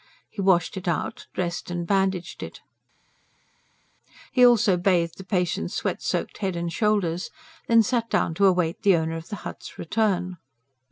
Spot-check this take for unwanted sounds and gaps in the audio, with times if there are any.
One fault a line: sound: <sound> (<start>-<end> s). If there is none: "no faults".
no faults